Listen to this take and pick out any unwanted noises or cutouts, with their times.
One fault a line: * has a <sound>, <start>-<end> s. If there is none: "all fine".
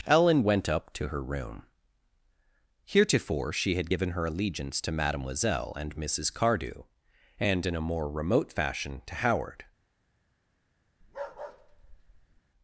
* has a bark, 11.0-12.4 s